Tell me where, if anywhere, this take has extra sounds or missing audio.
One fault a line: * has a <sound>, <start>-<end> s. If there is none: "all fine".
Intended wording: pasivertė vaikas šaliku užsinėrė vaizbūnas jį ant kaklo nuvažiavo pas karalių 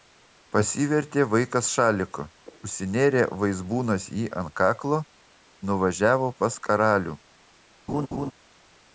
* has a laugh, 7.9-8.3 s